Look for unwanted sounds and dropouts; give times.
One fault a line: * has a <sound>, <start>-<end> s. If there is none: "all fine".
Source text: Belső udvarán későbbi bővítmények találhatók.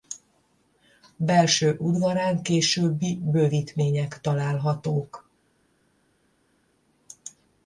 all fine